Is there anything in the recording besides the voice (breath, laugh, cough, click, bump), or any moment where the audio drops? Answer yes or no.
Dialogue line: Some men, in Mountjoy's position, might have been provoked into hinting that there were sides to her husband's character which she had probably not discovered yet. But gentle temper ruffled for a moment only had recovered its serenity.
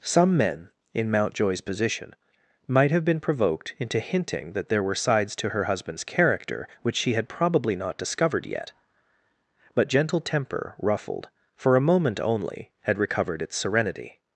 no